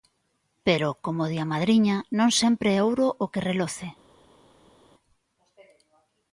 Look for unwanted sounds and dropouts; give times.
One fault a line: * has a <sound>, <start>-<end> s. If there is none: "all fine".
all fine